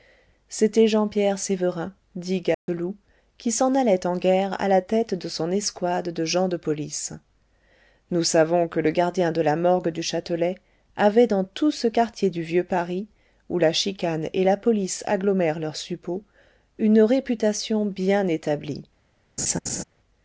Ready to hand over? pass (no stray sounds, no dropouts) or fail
fail